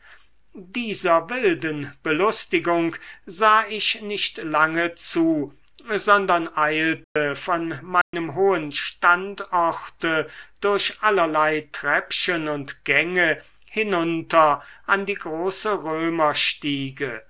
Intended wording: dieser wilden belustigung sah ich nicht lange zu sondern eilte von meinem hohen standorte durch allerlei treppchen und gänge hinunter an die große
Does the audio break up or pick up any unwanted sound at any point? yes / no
yes